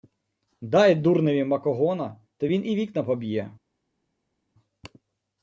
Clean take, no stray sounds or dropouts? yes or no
yes